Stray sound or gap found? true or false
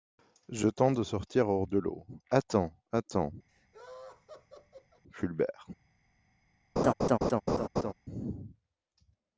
true